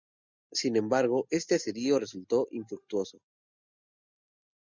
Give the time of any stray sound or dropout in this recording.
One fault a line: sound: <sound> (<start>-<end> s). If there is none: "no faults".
no faults